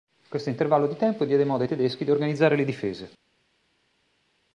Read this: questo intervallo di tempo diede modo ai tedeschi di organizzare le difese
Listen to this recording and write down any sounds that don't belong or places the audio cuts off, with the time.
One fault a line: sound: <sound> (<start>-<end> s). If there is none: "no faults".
no faults